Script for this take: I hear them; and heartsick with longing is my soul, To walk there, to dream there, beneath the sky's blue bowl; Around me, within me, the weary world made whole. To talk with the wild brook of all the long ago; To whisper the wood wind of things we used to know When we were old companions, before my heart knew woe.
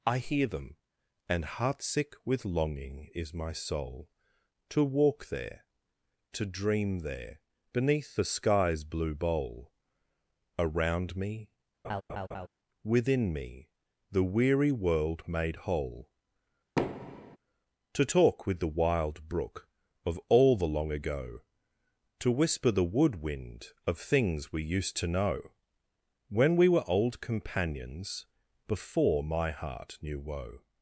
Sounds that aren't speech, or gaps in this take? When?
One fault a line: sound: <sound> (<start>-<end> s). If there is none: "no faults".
sound: laugh (11.8-12.5 s)
sound: thud (16.8-17.4 s)